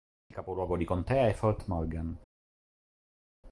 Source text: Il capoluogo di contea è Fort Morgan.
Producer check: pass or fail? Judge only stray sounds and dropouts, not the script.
pass